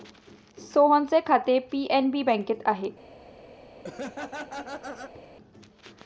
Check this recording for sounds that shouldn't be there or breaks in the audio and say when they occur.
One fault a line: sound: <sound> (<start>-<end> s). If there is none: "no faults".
sound: laugh (3.8-5.3 s)